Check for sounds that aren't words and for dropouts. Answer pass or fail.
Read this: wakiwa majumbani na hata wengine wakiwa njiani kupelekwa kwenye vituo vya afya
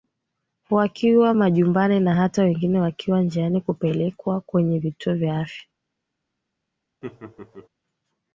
fail